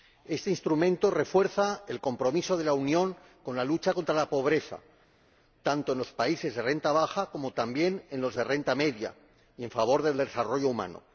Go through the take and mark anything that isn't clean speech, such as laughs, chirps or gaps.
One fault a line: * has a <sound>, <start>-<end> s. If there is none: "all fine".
all fine